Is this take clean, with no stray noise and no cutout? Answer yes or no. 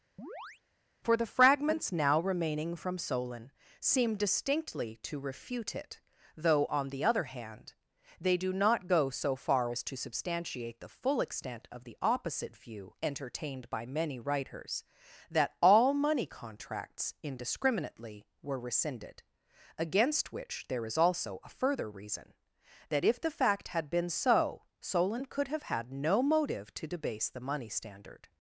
no